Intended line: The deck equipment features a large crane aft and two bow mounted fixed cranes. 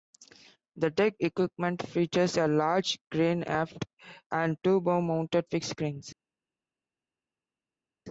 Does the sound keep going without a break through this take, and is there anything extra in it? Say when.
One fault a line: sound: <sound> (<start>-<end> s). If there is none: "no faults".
no faults